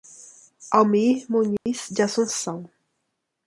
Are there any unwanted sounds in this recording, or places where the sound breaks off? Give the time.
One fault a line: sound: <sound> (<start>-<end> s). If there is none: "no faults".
sound: dropout (1.6-1.7 s)